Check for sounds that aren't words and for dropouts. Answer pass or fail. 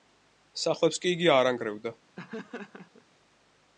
fail